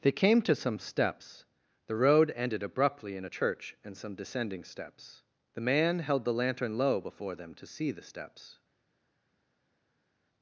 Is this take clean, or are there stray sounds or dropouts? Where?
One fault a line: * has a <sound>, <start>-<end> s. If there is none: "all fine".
all fine